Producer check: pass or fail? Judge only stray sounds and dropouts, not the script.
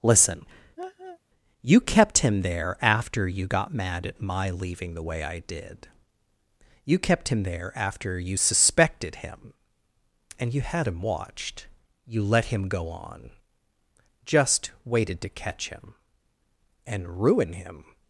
fail